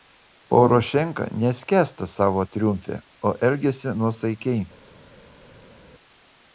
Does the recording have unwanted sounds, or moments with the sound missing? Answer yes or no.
no